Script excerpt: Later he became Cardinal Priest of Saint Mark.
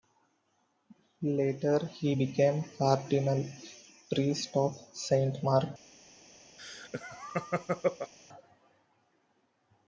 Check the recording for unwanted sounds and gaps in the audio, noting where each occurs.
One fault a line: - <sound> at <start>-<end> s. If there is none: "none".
- laugh at 6.6-8.1 s